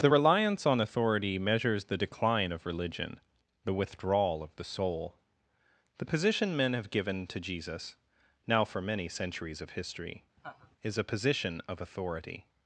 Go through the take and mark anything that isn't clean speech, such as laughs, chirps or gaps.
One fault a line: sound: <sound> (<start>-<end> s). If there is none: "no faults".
sound: laugh (10.4-10.8 s)